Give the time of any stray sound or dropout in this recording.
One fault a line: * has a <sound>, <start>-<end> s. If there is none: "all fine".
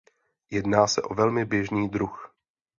all fine